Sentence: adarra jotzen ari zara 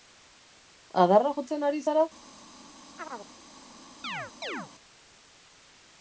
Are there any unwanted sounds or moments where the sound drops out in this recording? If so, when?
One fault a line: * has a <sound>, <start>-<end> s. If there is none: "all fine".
* has a chirp, 3.0-3.3 s
* has a chirp, 4.0-4.7 s